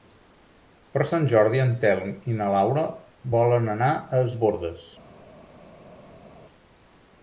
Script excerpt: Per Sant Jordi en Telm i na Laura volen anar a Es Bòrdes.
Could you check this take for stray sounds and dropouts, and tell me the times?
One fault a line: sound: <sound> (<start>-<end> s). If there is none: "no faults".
no faults